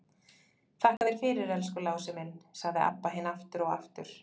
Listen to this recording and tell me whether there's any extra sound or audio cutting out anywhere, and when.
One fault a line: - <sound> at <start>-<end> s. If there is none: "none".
- dropout at 1.0-1.0 s